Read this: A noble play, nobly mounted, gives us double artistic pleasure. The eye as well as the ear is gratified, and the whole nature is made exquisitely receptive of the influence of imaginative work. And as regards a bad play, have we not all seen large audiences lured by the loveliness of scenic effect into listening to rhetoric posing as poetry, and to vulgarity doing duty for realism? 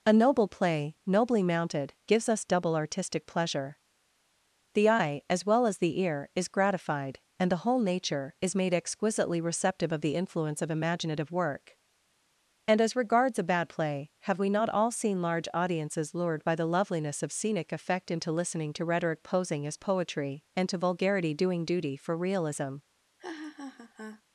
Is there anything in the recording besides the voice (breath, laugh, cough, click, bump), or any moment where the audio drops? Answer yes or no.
yes